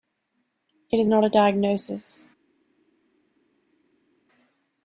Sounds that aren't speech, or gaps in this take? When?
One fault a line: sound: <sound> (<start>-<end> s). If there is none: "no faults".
no faults